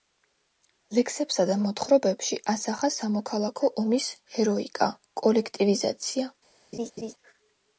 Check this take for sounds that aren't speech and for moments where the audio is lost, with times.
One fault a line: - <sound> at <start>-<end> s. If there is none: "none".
- laugh at 6.7-7.1 s